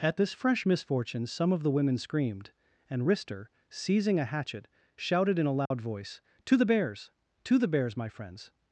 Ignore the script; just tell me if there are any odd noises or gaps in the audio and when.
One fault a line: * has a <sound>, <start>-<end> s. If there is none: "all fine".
* has a dropout, 5.7-5.7 s